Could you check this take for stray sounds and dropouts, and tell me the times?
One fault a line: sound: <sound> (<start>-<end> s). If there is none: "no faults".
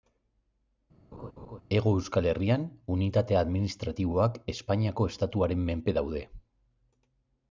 sound: laugh (1.1-1.6 s)